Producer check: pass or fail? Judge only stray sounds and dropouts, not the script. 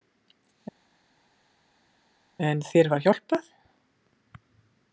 pass